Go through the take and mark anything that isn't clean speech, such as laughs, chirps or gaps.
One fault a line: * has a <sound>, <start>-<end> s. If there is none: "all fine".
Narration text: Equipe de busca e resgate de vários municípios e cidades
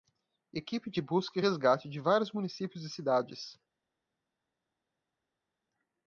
all fine